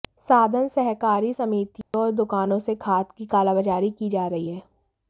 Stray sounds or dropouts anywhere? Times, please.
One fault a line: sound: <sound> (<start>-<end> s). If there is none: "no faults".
sound: dropout (1.8-1.9 s)